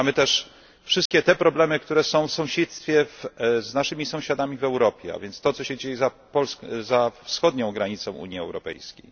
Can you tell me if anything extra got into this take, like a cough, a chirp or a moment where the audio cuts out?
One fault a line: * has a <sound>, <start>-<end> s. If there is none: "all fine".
* has a dropout, 1.1-1.1 s